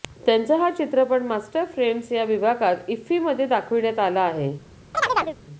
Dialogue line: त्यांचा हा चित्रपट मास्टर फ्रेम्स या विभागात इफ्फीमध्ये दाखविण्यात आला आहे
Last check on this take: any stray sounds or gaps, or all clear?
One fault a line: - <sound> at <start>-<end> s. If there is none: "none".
- chirp at 4.9-5.4 s